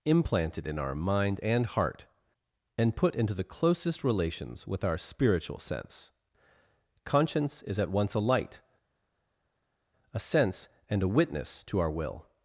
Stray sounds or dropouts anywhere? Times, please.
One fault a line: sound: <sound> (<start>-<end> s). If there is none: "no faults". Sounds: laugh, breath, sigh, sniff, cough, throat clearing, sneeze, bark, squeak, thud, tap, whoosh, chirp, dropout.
no faults